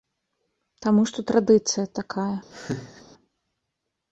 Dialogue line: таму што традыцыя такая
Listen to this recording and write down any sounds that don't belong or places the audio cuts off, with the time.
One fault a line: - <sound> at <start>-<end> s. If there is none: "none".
- laugh at 2.5-3.0 s